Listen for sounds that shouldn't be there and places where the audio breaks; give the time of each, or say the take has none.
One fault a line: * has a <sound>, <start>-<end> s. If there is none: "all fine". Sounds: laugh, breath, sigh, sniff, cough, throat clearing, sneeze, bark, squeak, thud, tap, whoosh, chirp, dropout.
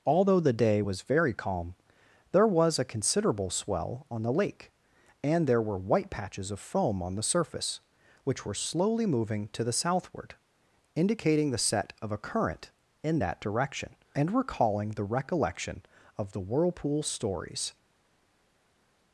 all fine